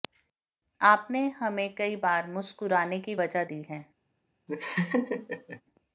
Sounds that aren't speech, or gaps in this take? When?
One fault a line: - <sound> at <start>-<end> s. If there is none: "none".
- laugh at 4.5-5.6 s